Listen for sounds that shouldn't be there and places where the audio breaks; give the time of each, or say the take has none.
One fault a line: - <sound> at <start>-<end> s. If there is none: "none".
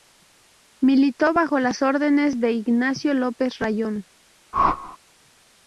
- whoosh at 4.5-5.0 s